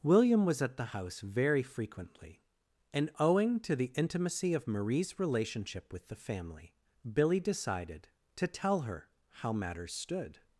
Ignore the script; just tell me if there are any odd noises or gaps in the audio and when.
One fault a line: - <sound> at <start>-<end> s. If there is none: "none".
none